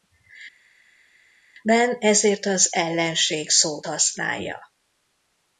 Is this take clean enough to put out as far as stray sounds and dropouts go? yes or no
yes